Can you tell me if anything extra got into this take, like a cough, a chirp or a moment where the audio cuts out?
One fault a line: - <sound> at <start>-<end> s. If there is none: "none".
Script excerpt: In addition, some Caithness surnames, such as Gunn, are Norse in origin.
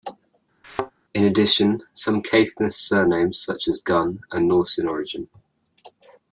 - thud at 0.6-0.9 s